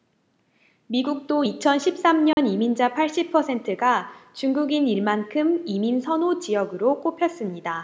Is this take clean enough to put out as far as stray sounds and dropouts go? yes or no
no